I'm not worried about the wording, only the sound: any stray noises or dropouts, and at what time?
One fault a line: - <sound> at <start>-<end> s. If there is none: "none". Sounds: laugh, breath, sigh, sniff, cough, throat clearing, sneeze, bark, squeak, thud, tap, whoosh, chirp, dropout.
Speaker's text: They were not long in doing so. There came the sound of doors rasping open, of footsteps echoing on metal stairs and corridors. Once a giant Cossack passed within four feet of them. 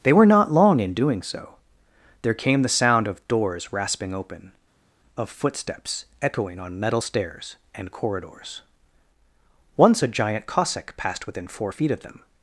none